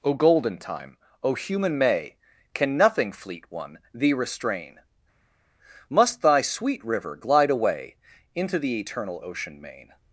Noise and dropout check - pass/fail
pass